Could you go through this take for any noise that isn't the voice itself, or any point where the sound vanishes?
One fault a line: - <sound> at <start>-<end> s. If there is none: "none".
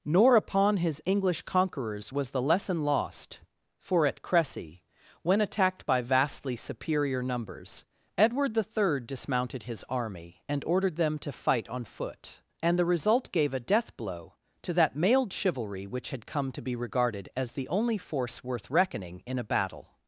none